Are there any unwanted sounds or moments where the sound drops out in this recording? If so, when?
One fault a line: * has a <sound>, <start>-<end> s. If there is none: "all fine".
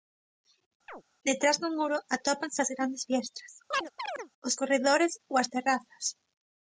* has a chirp, 0.9-1.0 s
* has a chirp, 3.7-4.3 s